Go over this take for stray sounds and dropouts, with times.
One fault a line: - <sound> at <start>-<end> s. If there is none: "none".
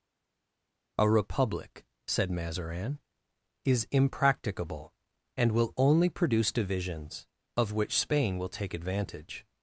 none